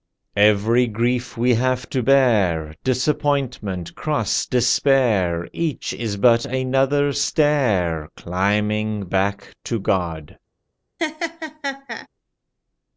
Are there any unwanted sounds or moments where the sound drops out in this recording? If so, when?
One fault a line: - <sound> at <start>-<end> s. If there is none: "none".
- laugh at 11.0-12.1 s